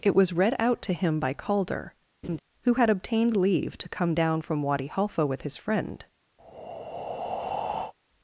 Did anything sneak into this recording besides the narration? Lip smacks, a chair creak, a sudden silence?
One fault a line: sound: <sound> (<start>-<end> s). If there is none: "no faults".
sound: laugh (2.2-2.4 s)
sound: breath (6.4-7.9 s)